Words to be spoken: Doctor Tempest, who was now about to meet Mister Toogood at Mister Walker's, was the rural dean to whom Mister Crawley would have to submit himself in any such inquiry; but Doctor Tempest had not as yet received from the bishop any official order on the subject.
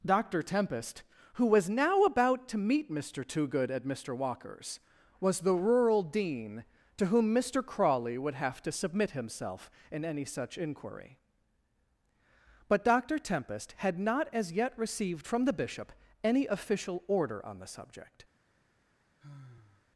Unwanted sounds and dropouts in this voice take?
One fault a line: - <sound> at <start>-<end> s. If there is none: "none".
- sigh at 19.2-19.9 s